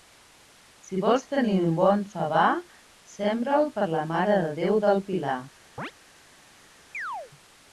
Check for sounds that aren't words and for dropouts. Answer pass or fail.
fail